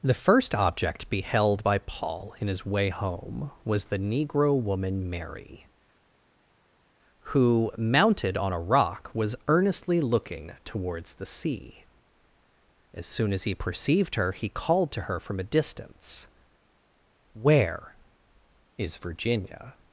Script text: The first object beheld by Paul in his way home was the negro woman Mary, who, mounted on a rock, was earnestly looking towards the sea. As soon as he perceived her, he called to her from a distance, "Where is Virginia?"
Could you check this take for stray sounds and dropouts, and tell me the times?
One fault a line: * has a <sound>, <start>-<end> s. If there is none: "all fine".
all fine